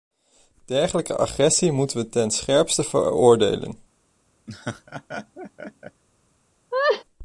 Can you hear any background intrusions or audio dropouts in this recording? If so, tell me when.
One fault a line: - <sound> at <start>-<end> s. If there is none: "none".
- laugh at 4.5-6.0 s
- laugh at 6.7-7.0 s